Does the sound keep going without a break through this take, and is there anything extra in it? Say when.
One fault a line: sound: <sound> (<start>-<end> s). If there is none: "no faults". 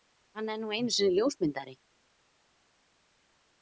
no faults